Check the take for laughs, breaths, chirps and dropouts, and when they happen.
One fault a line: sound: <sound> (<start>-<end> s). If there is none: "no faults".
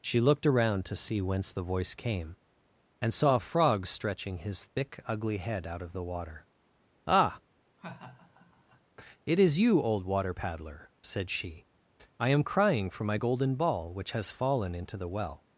sound: laugh (7.8-8.8 s)